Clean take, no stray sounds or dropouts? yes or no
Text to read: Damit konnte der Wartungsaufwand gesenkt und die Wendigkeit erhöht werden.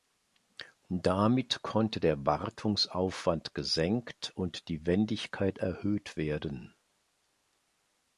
yes